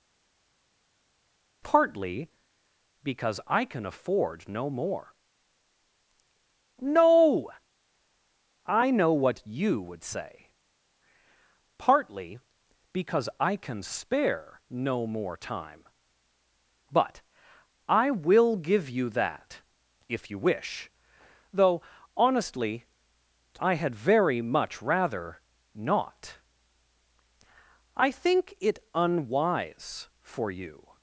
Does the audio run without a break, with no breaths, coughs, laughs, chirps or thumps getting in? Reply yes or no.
yes